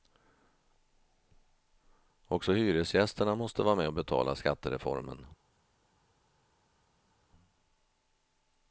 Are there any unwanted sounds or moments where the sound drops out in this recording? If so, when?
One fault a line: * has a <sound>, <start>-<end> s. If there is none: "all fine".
all fine